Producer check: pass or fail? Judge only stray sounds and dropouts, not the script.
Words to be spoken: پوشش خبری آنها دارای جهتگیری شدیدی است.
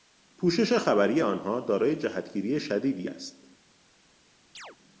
fail